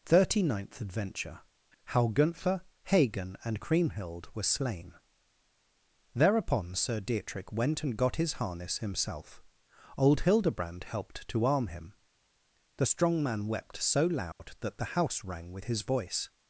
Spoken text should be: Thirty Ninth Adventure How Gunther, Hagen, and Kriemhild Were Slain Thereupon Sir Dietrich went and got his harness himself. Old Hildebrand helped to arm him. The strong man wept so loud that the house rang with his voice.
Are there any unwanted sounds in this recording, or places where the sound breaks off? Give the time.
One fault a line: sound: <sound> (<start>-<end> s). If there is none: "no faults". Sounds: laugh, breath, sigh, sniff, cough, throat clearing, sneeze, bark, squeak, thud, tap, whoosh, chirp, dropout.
sound: dropout (14.3-14.4 s)